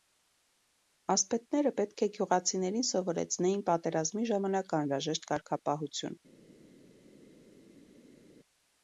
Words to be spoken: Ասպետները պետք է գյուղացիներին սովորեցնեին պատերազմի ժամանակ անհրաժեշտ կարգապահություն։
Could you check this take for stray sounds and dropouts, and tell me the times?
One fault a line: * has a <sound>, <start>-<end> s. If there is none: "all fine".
all fine